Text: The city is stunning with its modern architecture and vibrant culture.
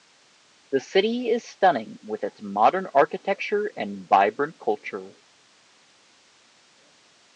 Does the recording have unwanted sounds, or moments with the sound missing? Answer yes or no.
no